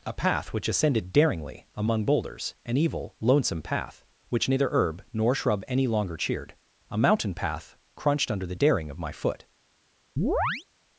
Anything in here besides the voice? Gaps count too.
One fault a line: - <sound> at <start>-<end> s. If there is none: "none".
- chirp at 10.2-10.7 s